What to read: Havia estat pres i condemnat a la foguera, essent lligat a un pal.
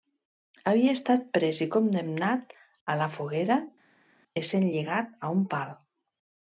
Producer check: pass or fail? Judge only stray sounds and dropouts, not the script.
pass